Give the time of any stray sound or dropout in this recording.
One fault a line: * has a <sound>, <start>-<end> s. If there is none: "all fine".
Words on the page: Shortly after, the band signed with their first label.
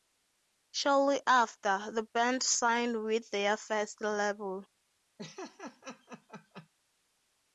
* has a laugh, 5.2-6.7 s